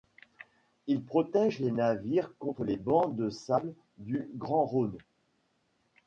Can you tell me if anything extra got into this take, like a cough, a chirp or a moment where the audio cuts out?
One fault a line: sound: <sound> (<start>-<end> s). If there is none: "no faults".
no faults